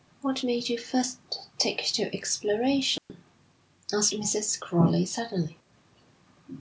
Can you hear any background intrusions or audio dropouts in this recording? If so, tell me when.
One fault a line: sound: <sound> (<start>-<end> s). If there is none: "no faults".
sound: dropout (3.0-3.1 s)